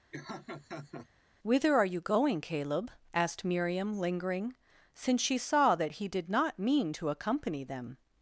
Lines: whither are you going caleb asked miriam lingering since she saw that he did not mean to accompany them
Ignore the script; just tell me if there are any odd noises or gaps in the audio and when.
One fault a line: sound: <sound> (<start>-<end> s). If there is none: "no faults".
sound: laugh (0.1-1.1 s)